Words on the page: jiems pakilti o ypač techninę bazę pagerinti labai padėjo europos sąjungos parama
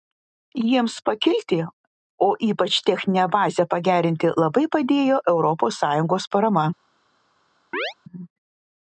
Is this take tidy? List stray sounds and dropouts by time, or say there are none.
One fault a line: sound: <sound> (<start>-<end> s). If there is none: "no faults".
sound: chirp (7.7-7.9 s)